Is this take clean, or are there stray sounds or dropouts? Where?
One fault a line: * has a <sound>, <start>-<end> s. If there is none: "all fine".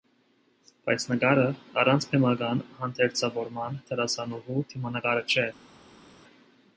all fine